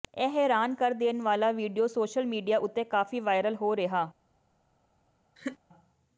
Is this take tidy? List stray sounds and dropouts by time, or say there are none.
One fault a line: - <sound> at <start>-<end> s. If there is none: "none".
- laugh at 5.4-5.6 s